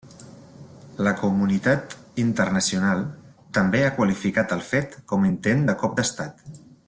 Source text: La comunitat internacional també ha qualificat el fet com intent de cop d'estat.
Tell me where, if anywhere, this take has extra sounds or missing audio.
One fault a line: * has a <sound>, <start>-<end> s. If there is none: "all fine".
all fine